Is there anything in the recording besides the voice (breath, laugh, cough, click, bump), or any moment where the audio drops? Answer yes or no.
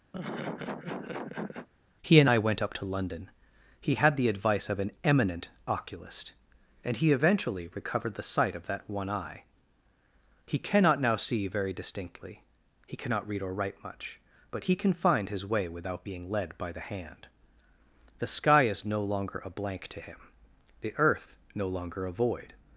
yes